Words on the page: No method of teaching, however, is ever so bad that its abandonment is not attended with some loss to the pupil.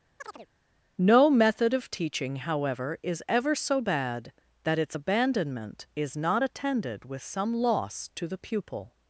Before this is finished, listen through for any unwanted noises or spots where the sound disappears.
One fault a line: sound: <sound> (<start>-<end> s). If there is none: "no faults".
sound: chirp (0.2-0.5 s)